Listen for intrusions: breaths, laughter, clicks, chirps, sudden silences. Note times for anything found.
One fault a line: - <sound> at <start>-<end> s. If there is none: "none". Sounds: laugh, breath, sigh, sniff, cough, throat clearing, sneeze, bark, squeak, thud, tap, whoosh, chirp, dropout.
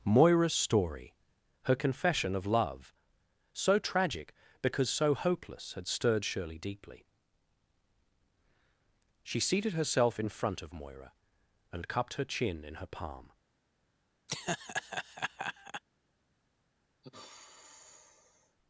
- laugh at 14.3-15.8 s
- sigh at 17.0-18.6 s